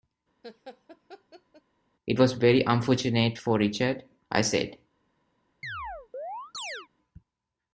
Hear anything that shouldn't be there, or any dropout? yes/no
yes